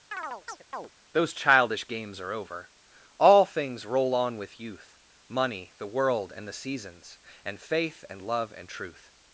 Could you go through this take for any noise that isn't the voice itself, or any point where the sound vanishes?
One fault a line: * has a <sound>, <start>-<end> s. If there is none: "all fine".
* has a chirp, 0.1-0.9 s